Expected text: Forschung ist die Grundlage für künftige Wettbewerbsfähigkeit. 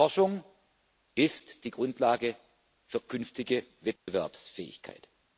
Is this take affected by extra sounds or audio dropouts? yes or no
yes